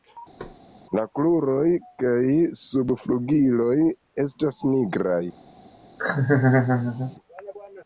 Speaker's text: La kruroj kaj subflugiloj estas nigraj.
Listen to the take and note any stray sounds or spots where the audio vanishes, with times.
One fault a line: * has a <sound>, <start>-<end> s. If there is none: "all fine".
* has a thud, 0.4-0.6 s
* has a laugh, 6.0-7.2 s